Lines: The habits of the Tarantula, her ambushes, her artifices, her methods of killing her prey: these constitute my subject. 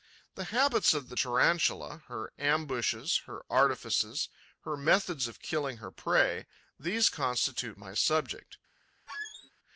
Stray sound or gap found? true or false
true